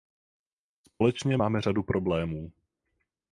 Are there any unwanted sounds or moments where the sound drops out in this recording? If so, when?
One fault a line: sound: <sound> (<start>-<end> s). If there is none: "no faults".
no faults